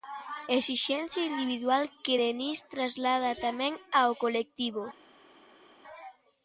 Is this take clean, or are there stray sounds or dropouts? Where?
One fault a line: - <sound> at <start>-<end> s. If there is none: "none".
none